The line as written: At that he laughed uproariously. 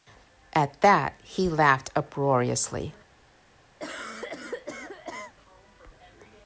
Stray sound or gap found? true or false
true